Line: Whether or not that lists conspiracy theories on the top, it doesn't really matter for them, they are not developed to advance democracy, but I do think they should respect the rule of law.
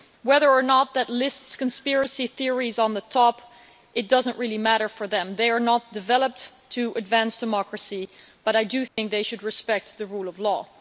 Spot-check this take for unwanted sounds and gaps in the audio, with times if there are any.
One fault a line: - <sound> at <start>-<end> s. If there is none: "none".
- dropout at 8.9-9.0 s